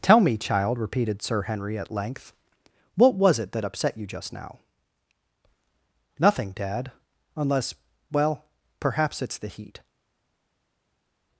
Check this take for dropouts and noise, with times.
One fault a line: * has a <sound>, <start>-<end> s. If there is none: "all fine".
all fine